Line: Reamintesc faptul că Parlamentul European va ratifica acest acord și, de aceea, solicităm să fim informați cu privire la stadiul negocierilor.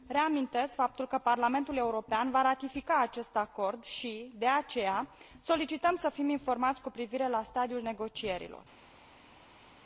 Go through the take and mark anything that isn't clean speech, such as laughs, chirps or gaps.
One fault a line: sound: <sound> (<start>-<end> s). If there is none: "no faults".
no faults